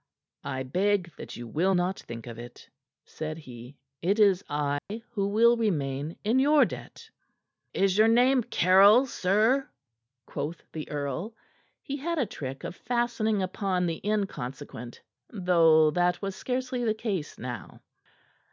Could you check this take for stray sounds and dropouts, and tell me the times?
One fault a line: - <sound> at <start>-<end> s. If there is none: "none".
- dropout at 4.8-4.9 s